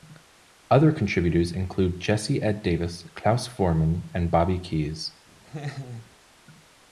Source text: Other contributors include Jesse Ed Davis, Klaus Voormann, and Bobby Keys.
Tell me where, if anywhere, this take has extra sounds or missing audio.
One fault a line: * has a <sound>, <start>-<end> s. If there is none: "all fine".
* has a laugh, 5.4-6.1 s